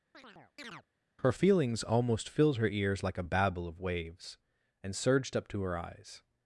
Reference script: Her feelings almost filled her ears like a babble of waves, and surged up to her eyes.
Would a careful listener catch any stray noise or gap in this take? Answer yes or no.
yes